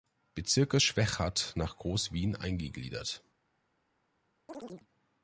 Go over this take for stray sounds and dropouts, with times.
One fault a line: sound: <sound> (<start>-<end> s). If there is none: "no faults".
sound: chirp (4.5-4.9 s)